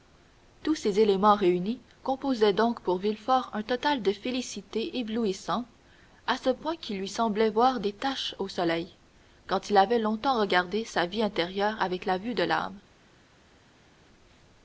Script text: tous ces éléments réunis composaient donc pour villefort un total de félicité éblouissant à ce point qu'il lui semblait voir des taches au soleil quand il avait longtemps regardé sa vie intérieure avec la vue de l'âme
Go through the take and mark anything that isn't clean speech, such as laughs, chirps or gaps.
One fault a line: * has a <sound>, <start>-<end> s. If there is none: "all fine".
all fine